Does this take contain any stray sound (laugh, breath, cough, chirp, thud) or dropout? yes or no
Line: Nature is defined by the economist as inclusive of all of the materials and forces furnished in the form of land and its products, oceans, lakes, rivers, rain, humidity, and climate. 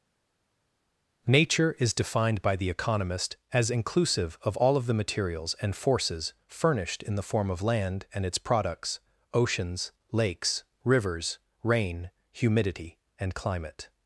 no